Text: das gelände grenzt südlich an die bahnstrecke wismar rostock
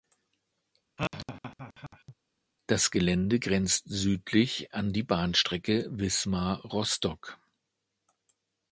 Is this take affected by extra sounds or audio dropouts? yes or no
yes